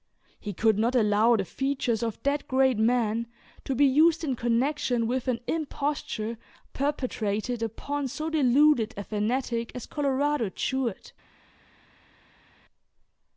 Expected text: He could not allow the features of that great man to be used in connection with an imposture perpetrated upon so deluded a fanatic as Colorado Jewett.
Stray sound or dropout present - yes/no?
no